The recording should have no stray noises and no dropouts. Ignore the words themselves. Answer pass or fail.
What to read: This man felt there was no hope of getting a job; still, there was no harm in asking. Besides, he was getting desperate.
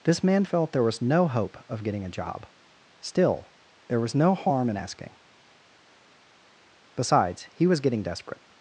pass